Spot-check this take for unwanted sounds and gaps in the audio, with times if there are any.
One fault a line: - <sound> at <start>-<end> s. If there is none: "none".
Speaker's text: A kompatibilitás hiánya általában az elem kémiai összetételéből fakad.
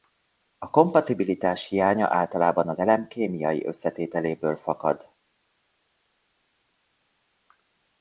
none